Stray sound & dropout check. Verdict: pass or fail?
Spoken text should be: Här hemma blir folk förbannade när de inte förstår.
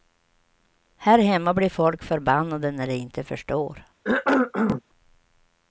fail